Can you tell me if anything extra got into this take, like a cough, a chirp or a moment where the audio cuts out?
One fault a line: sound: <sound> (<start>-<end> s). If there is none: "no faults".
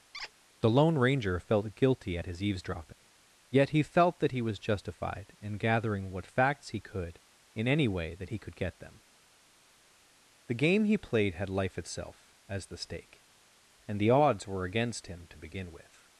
sound: squeak (0.1-0.3 s)